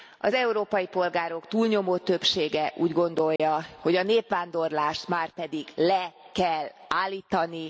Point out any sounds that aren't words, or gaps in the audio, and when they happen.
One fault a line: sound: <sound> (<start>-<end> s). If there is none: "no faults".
sound: dropout (3.4-3.4 s)